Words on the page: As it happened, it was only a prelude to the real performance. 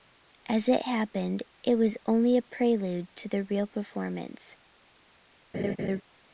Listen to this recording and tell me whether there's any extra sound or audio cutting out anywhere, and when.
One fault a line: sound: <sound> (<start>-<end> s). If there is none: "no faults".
sound: laugh (5.5-6.0 s)